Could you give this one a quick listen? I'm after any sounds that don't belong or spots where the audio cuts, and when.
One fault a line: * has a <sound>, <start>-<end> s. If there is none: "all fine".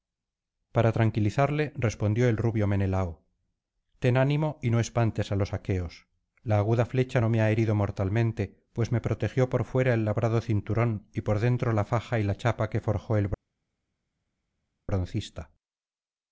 all fine